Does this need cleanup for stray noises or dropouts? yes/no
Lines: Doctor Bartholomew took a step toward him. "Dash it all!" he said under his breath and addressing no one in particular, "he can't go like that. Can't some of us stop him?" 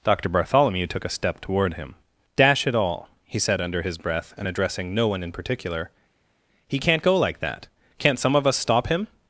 no